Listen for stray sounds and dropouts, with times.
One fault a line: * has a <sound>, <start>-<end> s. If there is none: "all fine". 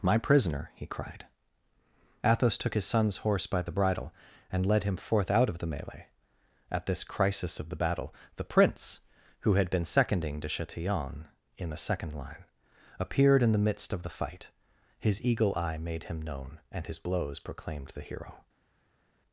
all fine